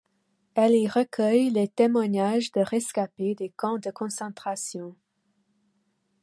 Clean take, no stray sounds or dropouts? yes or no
yes